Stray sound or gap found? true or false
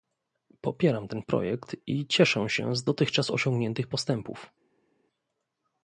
false